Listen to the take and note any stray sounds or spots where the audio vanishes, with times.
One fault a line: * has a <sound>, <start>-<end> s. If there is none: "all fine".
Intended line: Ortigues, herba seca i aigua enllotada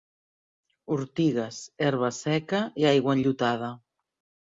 all fine